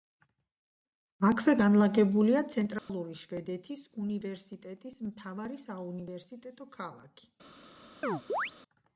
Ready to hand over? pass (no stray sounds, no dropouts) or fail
fail